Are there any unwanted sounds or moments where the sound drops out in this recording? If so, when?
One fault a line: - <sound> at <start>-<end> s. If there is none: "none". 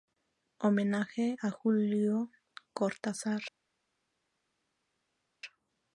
none